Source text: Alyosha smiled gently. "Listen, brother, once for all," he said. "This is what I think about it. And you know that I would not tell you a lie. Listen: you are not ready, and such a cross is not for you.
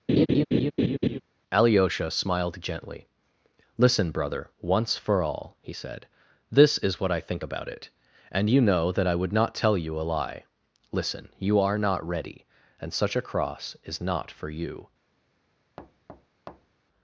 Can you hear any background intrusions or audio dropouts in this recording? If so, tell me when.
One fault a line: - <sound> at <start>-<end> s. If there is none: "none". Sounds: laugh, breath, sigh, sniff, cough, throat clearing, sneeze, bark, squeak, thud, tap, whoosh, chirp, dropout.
- laugh at 0.1-1.2 s
- thud at 15.8-16.8 s